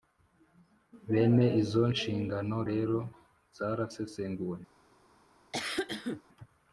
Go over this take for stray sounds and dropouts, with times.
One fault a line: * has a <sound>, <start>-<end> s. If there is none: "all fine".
* has a cough, 5.5-6.2 s